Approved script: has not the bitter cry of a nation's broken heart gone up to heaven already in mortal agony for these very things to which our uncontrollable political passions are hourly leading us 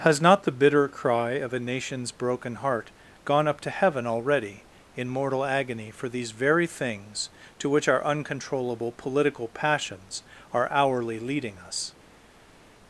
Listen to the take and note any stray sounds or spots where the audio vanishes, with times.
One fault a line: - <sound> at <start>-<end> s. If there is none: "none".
none